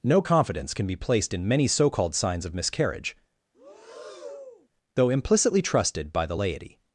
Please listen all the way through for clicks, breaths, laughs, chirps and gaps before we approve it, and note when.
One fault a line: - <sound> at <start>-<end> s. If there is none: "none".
- breath at 3.5-4.7 s